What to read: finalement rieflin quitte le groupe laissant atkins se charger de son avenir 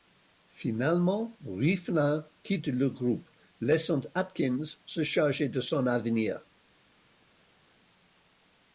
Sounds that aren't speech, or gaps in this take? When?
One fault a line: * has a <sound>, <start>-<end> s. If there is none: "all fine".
all fine